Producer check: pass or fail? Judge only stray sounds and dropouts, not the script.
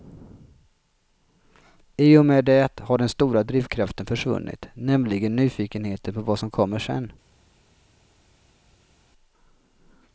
pass